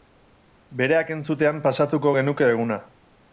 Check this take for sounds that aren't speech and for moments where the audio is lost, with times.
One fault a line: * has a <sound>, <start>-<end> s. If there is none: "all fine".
all fine